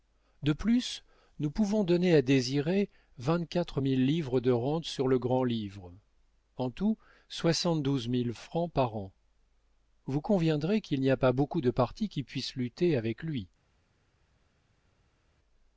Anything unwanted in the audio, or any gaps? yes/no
no